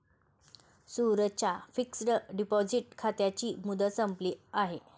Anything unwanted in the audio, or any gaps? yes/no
no